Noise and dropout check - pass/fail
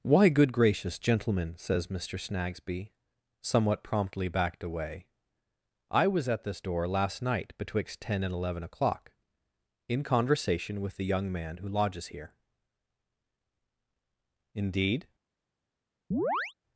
fail